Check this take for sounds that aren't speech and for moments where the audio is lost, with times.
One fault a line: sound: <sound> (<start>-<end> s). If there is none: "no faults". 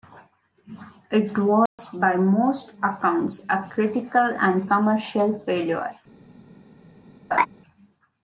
sound: dropout (1.7-1.8 s)
sound: laugh (7.3-7.5 s)